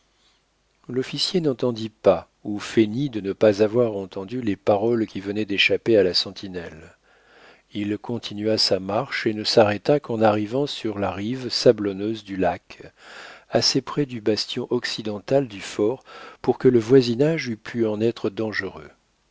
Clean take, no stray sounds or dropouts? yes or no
yes